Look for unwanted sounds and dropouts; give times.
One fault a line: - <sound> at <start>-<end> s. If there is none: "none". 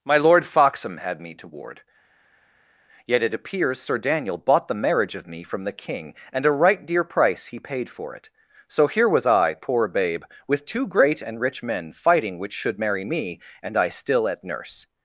none